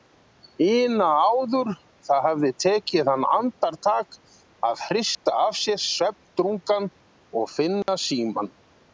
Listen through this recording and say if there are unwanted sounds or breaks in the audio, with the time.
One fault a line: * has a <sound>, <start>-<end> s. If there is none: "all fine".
* has a dropout, 5.1-5.3 s
* has a dropout, 7.8-7.9 s